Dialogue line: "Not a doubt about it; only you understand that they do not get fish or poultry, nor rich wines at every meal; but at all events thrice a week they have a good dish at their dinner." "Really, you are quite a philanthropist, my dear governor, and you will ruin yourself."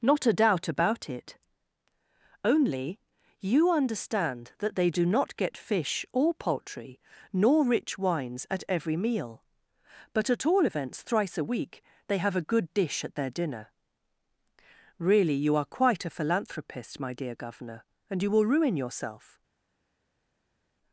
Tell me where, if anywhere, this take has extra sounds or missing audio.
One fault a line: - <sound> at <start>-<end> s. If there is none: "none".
none